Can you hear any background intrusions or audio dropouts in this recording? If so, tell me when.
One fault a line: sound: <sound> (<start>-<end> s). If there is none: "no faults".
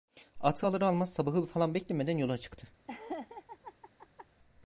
sound: laugh (2.9-4.3 s)